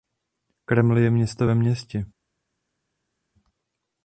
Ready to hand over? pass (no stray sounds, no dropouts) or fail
pass